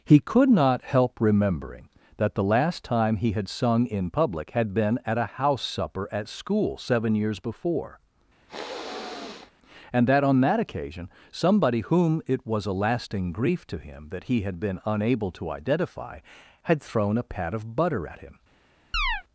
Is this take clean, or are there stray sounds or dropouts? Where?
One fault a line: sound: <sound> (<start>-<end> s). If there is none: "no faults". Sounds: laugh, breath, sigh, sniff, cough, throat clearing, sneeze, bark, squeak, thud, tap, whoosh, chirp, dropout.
sound: sniff (8.5-9.5 s)
sound: chirp (18.9-19.2 s)